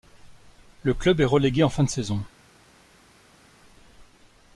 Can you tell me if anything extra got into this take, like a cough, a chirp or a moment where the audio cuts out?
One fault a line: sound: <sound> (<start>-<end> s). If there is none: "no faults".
no faults